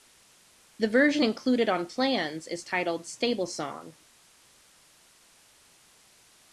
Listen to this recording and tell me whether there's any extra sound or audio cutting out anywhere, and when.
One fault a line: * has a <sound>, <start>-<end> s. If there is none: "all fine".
all fine